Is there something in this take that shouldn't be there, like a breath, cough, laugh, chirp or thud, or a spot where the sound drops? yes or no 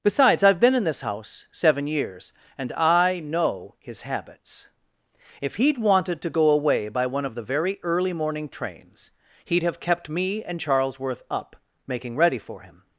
no